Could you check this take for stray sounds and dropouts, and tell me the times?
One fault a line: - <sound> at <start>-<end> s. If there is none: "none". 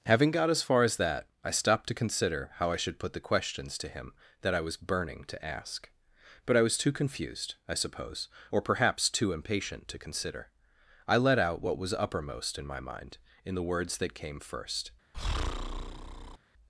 - breath at 15.1-16.4 s